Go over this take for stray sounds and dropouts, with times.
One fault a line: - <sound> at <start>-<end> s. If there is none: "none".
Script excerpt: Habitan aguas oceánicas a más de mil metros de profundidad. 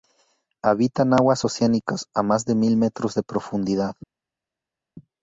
none